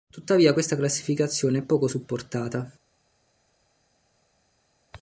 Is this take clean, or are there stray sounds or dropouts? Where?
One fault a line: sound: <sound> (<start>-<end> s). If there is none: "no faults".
no faults